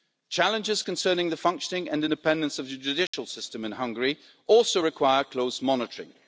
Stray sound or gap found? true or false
true